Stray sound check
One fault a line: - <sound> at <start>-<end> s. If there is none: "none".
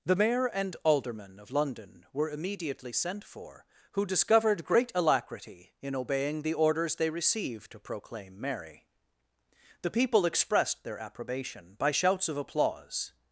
none